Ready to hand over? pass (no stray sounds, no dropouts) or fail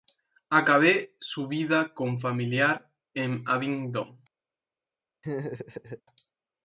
fail